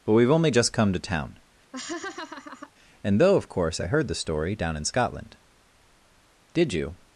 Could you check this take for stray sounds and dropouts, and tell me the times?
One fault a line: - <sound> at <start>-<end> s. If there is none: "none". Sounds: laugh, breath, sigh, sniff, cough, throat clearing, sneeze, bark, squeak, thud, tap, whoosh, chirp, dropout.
- laugh at 1.7-2.7 s